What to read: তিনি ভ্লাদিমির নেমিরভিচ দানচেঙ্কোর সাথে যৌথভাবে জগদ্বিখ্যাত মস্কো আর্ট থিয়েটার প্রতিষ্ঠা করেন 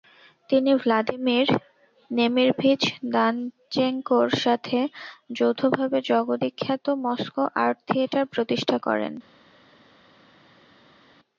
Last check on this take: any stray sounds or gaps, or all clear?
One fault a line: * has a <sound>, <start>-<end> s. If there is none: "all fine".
all fine